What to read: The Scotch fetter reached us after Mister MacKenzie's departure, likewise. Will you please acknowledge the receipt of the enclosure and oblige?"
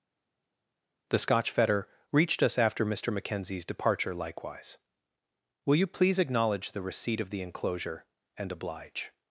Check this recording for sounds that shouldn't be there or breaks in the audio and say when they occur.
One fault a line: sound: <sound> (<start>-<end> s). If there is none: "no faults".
no faults